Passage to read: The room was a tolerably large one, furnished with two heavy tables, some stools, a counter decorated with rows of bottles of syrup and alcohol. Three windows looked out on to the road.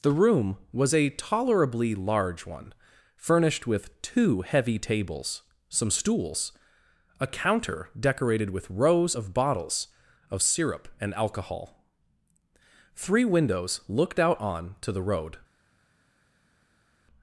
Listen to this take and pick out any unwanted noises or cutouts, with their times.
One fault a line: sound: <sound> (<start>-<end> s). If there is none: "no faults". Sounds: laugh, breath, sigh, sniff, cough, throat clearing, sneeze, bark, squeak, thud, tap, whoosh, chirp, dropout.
no faults